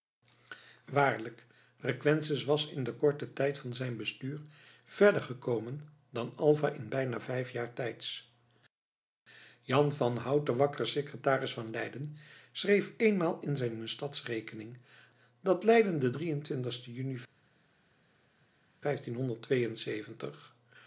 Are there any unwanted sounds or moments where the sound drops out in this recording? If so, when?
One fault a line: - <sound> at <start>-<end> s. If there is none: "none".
none